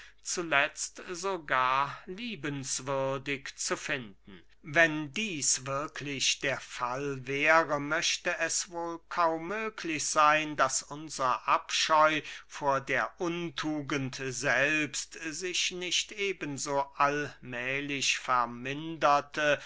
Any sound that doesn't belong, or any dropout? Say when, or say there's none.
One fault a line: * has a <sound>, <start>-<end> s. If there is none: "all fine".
all fine